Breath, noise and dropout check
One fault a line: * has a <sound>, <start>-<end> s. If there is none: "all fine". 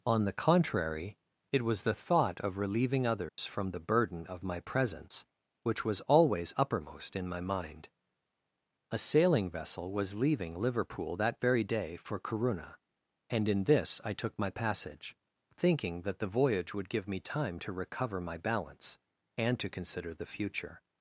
* has a dropout, 3.3-3.4 s